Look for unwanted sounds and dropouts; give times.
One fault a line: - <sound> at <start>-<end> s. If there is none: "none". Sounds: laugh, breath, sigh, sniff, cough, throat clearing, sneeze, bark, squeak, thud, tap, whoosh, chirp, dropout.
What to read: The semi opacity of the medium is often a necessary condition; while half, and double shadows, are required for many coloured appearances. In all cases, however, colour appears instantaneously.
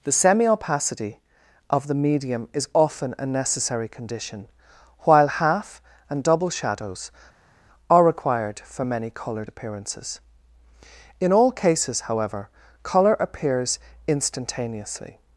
none